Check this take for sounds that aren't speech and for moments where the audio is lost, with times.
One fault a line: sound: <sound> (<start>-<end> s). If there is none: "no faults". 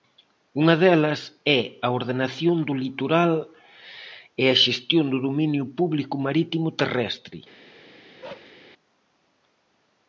sound: bark (8.2-8.5 s)